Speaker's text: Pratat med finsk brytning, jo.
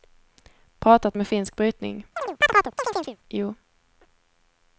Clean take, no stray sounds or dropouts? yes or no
no